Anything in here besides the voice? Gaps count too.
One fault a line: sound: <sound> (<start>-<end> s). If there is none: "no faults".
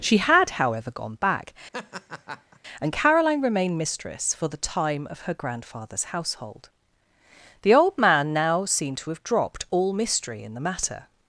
sound: laugh (1.7-2.6 s)